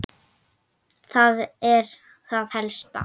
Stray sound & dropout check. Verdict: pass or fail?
pass